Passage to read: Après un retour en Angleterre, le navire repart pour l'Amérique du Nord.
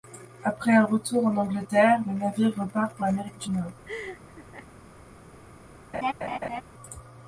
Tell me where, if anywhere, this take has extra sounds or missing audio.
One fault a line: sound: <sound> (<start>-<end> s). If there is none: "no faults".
sound: laugh (3.9-4.7 s)
sound: laugh (5.9-6.6 s)